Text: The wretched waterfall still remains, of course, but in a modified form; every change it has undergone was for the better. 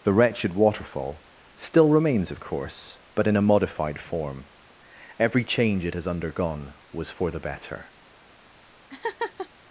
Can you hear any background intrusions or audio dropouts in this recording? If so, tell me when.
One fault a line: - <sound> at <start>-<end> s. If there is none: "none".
- laugh at 8.9-9.5 s